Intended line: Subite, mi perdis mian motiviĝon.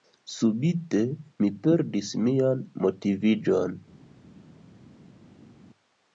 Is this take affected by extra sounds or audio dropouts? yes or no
no